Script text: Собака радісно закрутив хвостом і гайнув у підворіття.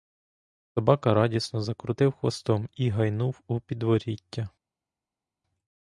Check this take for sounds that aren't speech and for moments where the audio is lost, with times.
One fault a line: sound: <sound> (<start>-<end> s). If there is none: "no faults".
no faults